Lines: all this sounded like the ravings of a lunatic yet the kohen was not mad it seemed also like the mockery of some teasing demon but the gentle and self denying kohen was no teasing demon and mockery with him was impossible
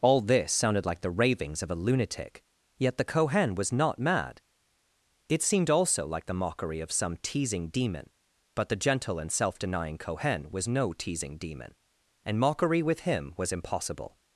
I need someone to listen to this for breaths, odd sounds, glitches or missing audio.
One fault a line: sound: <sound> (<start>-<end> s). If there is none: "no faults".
no faults